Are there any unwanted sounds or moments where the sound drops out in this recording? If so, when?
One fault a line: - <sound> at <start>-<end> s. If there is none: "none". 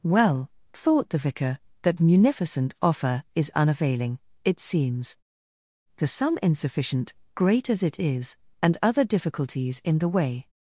none